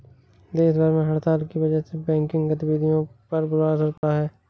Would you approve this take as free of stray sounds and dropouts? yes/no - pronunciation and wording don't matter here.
no